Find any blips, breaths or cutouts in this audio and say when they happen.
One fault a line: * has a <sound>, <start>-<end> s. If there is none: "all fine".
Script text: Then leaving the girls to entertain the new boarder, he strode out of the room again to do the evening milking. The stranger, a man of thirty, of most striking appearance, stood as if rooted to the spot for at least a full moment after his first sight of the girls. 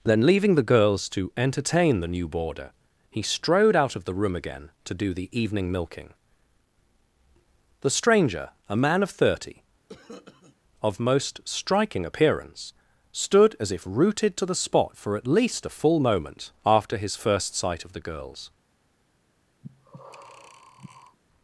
* has a cough, 9.9-10.6 s
* has a breath, 19.6-21.2 s